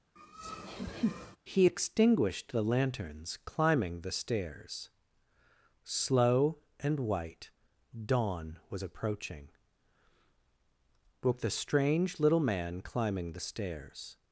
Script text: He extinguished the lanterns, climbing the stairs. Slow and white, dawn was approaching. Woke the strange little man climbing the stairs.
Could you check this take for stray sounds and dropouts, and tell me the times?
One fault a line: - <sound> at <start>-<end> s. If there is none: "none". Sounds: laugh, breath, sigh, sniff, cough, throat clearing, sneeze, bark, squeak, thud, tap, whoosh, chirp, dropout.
- laugh at 0.2-1.4 s